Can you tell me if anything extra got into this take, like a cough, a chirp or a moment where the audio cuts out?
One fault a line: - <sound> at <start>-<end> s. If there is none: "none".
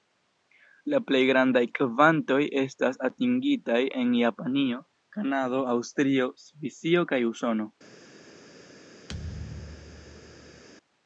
- thud at 9.1-10.6 s